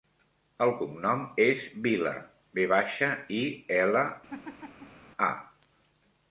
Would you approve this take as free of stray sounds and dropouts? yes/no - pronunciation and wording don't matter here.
no